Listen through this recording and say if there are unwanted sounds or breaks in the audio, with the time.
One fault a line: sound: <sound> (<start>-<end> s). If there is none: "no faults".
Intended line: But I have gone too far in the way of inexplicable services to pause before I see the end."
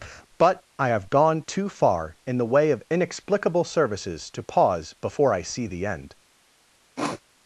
sound: sniff (7.0-7.2 s)